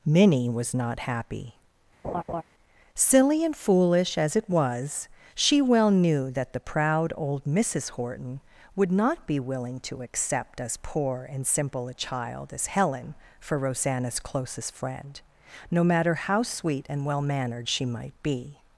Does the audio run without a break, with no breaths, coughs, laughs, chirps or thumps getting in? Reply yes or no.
no